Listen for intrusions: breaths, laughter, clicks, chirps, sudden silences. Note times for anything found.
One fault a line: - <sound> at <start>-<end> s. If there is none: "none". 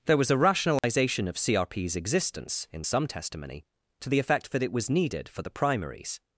- dropout at 0.8-0.8 s